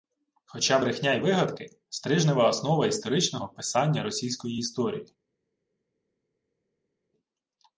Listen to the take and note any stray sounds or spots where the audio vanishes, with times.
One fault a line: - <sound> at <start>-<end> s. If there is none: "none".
none